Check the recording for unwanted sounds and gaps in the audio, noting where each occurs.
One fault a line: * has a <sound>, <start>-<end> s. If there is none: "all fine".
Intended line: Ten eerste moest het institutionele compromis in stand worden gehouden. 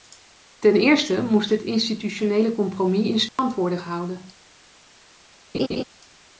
* has a dropout, 3.3-3.4 s
* has a laugh, 5.5-5.8 s